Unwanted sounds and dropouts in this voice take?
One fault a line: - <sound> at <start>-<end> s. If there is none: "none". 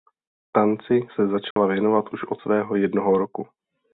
- dropout at 1.5-1.6 s